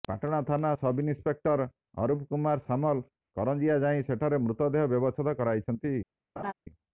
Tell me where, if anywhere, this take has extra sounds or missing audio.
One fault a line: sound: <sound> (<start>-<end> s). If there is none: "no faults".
sound: laugh (6.4-6.5 s)